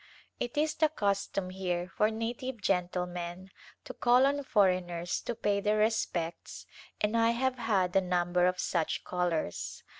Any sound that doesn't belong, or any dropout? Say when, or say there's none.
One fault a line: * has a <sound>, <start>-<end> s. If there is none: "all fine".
all fine